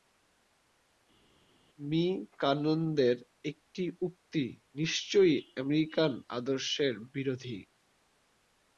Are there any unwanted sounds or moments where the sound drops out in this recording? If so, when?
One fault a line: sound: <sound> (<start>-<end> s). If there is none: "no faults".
no faults